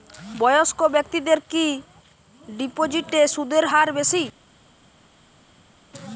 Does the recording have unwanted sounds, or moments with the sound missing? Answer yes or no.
no